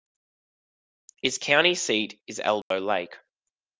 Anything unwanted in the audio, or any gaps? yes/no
yes